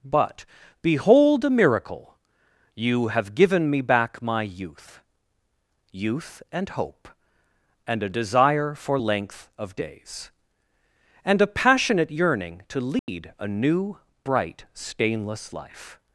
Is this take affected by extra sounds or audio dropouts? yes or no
yes